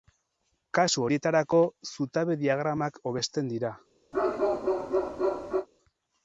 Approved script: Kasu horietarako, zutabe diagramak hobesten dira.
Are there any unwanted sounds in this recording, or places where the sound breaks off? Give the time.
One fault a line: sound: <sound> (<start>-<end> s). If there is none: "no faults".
sound: bark (4.1-5.7 s)